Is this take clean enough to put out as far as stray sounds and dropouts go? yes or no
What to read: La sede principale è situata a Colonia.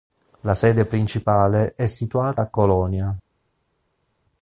yes